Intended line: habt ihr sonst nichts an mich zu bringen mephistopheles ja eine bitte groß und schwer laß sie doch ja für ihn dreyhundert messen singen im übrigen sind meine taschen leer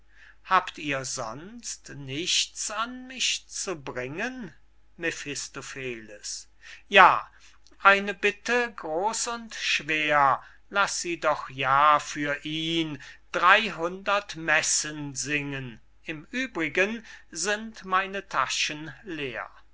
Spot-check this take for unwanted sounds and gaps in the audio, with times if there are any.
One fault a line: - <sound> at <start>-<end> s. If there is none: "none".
none